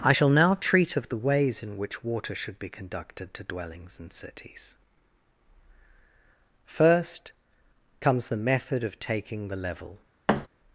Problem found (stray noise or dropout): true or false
true